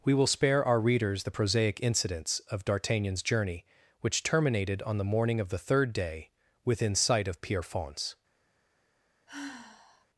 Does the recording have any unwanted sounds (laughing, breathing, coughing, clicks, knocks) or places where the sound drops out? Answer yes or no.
yes